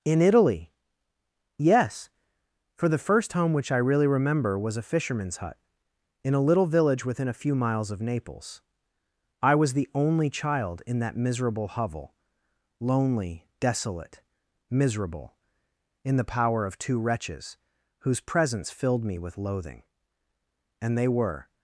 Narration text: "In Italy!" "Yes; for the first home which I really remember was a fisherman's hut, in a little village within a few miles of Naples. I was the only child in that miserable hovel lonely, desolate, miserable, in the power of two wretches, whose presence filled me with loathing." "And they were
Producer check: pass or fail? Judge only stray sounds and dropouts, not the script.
pass